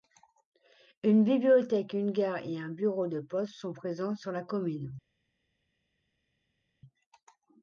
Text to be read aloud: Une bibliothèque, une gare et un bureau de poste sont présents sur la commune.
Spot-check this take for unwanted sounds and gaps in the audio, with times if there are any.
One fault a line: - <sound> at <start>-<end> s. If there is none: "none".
none